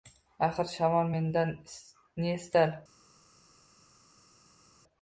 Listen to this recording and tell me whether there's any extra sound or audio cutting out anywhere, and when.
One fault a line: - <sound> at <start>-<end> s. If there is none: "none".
none